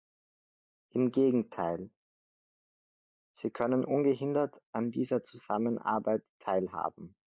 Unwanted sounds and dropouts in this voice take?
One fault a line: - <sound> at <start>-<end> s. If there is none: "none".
none